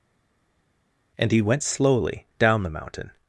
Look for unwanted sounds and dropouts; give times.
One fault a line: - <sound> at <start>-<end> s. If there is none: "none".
none